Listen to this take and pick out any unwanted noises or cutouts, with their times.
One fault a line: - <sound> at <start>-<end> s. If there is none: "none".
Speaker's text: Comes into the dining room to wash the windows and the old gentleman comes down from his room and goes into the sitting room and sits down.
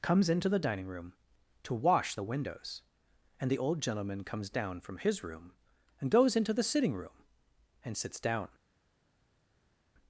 none